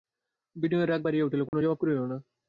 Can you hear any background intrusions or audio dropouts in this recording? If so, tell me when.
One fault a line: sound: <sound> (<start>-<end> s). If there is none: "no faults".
sound: dropout (1.5-1.5 s)